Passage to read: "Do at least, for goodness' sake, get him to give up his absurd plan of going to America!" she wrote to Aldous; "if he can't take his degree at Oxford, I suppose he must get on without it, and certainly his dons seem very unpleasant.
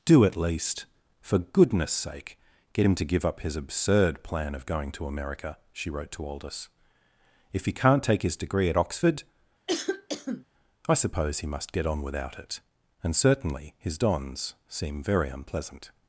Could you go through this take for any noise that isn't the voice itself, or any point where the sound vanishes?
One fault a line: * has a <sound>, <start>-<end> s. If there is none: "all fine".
* has a cough, 9.7-10.4 s